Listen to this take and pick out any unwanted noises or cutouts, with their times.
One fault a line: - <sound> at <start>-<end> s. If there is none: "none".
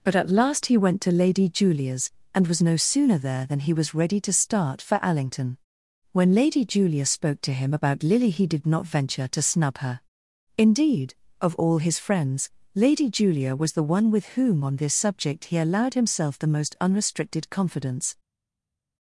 none